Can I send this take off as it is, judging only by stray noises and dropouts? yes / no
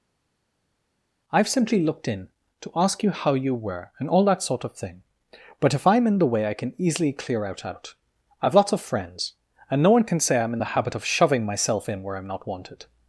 yes